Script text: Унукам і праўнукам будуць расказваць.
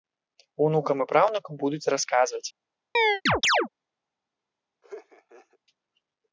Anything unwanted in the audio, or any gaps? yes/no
yes